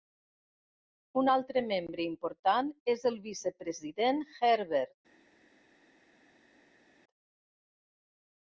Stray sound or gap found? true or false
false